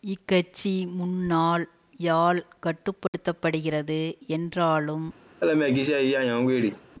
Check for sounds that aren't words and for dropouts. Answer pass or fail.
fail